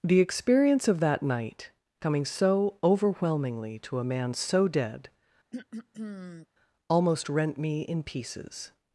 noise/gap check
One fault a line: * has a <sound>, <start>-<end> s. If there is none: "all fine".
* has a throat clearing, 5.5-6.5 s